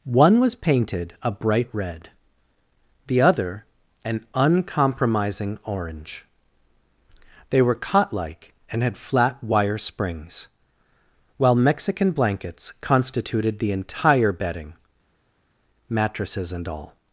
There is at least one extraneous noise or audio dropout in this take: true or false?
false